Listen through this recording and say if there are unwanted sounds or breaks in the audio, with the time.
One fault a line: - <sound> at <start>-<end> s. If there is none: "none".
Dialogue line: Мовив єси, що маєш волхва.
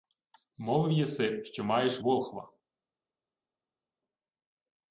none